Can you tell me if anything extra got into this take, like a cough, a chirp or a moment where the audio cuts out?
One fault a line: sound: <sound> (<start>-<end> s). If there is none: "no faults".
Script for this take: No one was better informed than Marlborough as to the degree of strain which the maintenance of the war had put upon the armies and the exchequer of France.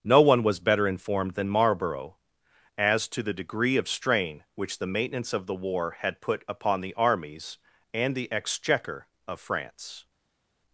no faults